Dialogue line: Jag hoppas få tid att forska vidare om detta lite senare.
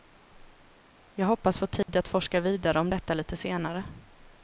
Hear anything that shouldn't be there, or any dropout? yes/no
yes